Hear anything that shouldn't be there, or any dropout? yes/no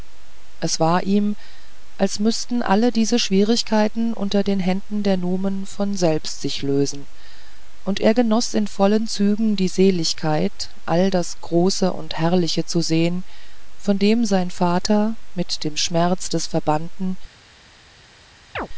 yes